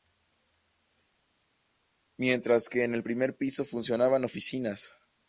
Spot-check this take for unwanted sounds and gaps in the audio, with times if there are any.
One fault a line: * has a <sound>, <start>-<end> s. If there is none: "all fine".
all fine